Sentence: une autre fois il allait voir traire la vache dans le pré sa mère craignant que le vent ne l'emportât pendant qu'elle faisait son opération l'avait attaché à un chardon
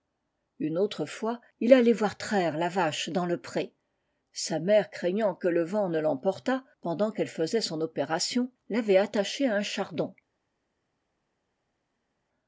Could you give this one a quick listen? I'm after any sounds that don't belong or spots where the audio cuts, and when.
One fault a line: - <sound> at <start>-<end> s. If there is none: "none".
none